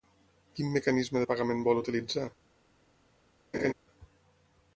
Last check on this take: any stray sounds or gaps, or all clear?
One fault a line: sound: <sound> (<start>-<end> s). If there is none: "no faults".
sound: laugh (3.5-3.7 s)